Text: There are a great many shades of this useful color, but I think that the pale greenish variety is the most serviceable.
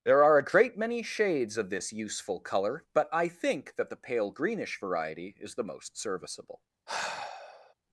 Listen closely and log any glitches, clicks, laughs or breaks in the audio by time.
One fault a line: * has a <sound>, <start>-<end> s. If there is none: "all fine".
* has a sigh, 6.9-7.7 s